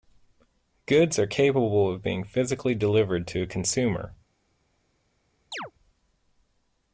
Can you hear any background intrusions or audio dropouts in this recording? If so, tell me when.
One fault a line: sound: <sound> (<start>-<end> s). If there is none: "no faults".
sound: chirp (5.5-5.7 s)